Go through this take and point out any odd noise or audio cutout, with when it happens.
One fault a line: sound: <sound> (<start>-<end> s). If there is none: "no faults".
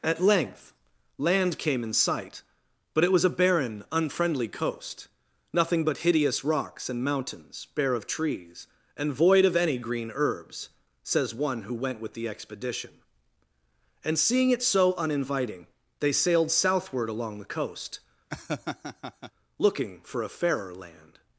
sound: laugh (18.3-19.3 s)